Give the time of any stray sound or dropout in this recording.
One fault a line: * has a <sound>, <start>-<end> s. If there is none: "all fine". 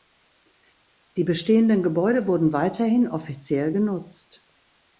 all fine